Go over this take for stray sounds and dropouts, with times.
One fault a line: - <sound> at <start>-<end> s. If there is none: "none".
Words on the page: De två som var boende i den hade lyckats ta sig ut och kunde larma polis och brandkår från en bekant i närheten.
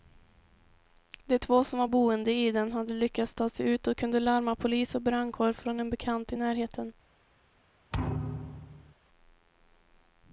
- thud at 7.9-8.9 s